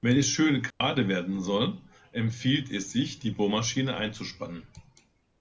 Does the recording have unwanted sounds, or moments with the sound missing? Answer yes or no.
yes